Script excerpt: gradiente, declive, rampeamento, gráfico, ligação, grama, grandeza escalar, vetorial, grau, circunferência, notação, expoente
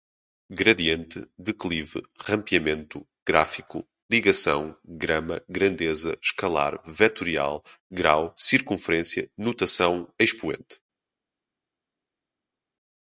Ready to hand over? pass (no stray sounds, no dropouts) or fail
pass